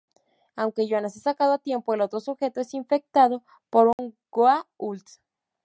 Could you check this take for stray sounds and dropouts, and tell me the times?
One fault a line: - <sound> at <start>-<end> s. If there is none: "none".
- dropout at 3.9-4.0 s